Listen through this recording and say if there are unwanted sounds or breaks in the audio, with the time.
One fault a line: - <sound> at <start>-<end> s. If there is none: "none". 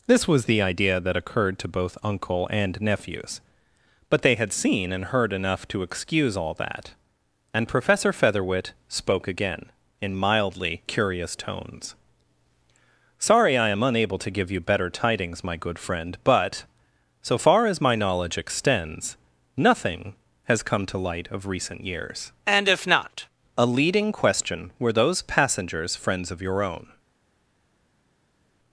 none